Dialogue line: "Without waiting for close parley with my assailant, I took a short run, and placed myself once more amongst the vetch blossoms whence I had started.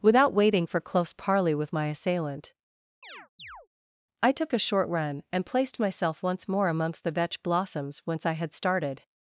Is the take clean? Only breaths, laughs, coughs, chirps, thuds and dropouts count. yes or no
no